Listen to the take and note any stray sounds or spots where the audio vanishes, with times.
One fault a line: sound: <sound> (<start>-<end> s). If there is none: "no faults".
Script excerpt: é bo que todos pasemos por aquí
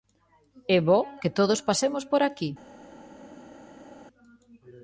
no faults